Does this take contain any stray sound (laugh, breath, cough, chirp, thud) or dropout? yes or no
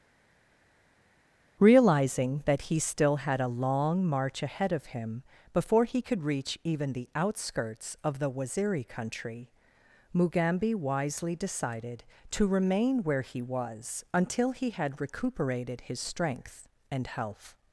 no